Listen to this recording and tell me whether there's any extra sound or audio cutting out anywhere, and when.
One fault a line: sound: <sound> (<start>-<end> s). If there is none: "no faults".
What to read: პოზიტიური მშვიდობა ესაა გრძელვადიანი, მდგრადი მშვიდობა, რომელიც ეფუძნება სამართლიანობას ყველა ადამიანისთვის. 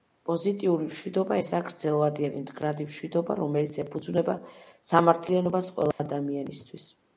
sound: dropout (5.9-6.0 s)